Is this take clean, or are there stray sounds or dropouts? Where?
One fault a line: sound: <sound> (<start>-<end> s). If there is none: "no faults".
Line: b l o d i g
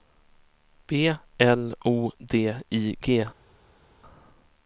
no faults